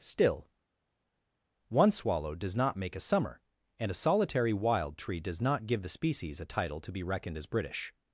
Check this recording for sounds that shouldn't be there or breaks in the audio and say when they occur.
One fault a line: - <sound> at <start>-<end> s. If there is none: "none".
none